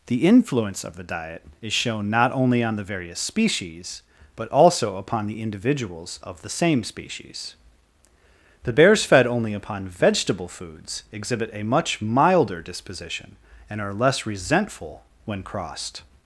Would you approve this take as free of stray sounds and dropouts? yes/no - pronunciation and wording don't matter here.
yes